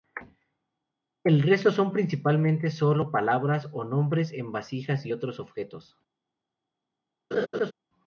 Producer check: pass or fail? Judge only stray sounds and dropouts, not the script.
fail